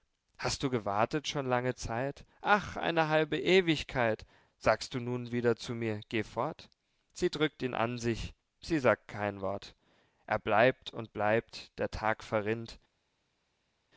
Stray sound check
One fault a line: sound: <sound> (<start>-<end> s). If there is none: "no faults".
no faults